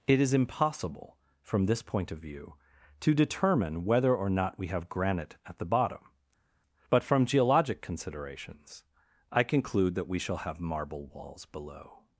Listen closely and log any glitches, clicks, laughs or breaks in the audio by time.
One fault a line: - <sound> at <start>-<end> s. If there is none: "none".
none